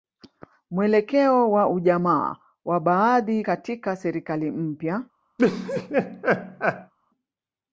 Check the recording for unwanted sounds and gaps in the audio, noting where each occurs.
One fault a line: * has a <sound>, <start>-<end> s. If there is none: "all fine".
* has a laugh, 5.4-6.9 s